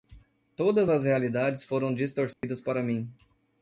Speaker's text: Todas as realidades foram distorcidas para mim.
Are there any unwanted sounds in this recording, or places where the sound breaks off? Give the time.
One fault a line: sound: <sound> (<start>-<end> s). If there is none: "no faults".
sound: dropout (2.3-2.4 s)